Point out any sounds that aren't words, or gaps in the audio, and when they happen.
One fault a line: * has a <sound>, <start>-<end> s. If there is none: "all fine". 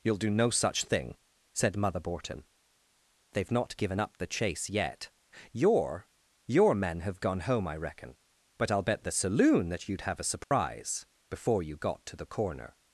* has a dropout, 10.4-10.5 s